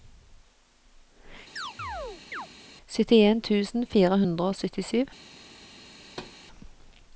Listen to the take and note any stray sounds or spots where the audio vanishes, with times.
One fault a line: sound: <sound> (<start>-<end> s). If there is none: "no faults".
sound: chirp (1.6-2.5 s)
sound: thud (6.0-6.4 s)